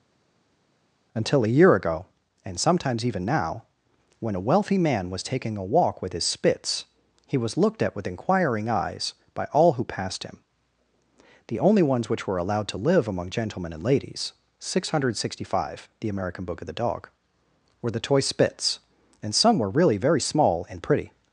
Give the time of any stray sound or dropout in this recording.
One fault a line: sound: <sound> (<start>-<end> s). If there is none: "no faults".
no faults